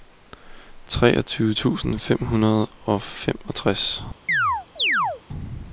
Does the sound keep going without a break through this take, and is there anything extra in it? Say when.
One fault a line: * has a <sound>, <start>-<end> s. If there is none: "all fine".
* has a chirp, 4.3-5.2 s